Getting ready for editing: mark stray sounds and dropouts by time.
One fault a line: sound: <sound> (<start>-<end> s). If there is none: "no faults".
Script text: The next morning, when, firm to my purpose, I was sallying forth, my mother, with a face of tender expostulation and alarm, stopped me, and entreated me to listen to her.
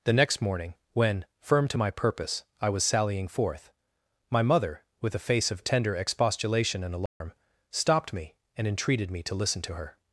sound: dropout (7.1-7.2 s)